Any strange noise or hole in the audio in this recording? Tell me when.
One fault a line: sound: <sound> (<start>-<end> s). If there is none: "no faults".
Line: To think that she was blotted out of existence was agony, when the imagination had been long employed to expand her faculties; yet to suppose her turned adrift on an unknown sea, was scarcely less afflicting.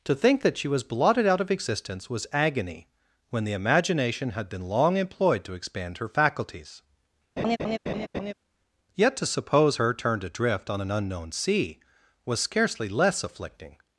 sound: laugh (7.4-8.3 s)